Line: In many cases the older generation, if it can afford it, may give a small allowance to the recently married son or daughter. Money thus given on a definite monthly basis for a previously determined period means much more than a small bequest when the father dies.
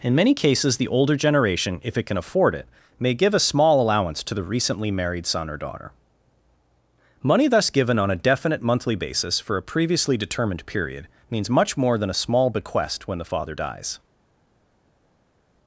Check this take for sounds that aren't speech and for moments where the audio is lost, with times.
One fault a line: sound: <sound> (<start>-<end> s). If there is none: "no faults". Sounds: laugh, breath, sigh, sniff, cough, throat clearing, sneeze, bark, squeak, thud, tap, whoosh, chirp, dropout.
no faults